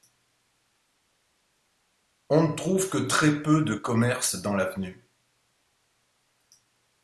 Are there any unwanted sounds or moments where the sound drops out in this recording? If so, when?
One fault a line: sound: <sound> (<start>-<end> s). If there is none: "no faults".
no faults